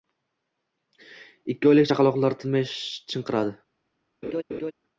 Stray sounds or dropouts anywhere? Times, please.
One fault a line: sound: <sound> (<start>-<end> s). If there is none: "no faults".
sound: laugh (4.2-4.7 s)